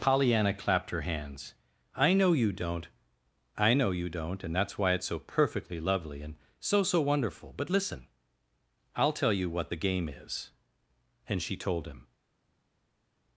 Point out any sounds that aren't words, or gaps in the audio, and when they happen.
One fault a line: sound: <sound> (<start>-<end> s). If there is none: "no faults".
no faults